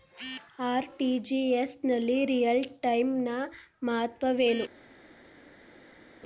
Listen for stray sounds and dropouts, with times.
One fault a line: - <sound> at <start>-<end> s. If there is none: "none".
none